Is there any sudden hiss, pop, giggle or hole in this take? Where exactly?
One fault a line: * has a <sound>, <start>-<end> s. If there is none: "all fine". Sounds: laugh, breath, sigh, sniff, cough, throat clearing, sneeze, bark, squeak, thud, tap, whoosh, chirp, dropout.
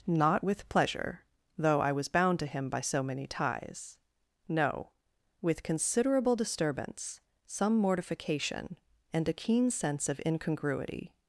all fine